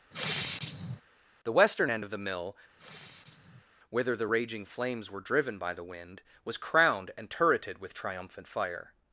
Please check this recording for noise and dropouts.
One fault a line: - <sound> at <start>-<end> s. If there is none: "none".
- sigh at 0.1-1.0 s
- sigh at 2.8-3.7 s